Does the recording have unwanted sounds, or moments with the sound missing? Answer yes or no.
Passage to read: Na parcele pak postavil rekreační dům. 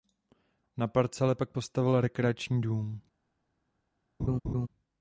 yes